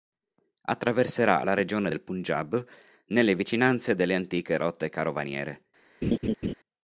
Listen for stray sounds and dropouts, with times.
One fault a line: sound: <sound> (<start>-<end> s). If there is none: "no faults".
sound: laugh (6.0-6.5 s)